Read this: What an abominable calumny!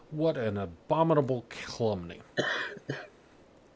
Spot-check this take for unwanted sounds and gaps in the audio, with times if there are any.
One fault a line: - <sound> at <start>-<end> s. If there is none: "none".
- laugh at 2.4-3.1 s